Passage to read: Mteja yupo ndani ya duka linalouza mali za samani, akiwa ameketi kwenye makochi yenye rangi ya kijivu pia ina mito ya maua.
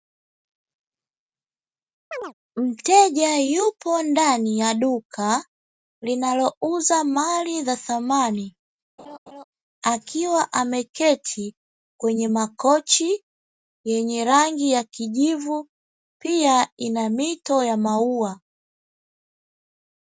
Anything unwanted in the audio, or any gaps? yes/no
yes